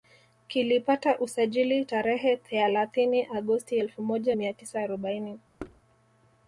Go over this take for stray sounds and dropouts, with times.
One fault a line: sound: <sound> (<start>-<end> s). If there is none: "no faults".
sound: thud (5.6-5.8 s)